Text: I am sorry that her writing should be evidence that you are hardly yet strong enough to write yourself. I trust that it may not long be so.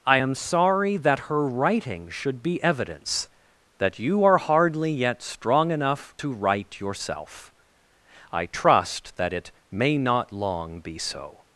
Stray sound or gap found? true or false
false